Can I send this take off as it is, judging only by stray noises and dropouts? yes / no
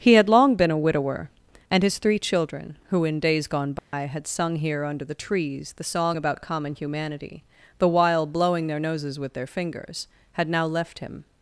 no